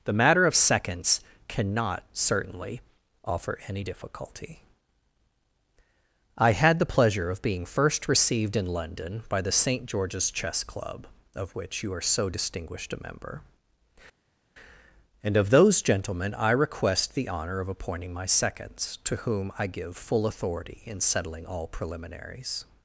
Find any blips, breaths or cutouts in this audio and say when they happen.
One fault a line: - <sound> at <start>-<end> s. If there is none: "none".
none